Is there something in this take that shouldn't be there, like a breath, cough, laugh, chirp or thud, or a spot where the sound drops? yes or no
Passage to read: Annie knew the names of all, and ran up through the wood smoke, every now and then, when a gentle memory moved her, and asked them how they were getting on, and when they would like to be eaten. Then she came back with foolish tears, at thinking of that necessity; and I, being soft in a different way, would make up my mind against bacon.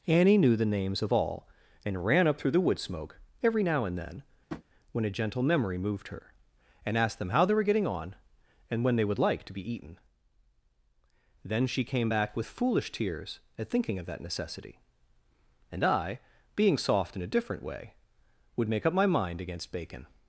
yes